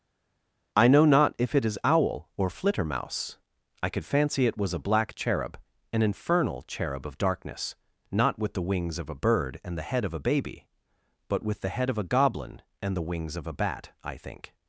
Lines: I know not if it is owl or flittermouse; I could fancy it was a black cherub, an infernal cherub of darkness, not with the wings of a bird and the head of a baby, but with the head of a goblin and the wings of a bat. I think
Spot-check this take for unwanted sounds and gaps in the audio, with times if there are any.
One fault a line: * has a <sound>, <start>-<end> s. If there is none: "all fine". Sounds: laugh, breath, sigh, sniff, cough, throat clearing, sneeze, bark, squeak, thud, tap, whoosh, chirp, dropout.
all fine